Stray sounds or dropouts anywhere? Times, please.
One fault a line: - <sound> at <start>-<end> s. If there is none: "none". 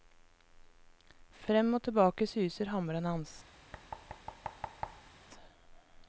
- thud at 3.7-5.1 s